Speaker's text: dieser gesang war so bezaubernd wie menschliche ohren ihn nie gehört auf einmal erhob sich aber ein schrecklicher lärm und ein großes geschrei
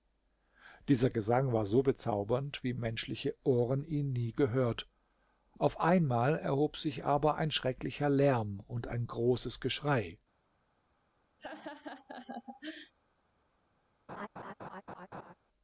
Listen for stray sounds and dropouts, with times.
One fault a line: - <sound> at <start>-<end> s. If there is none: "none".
- laugh at 11.4-12.9 s
- laugh at 14.1-15.3 s